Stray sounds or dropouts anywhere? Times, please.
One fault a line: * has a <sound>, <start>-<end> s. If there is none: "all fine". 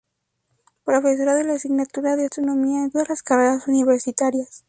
all fine